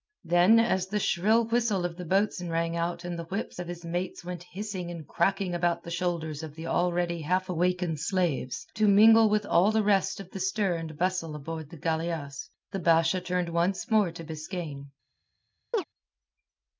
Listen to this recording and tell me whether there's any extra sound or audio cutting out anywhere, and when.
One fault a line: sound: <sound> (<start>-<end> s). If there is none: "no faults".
sound: chirp (15.7-15.8 s)